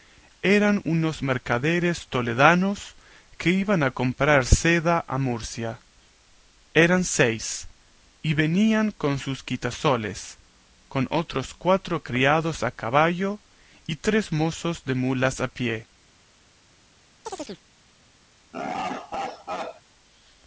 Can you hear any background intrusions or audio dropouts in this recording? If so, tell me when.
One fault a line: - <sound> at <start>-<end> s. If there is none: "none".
- chirp at 17.3-17.6 s
- laugh at 18.5-19.8 s